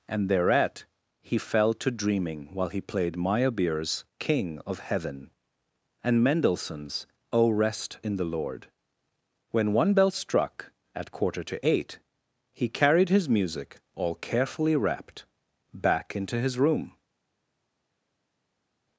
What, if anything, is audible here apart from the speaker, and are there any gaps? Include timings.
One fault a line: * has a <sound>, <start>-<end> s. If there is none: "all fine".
all fine